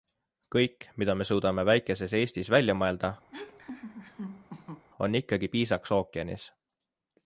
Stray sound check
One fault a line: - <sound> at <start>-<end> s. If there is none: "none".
- laugh at 3.3-4.9 s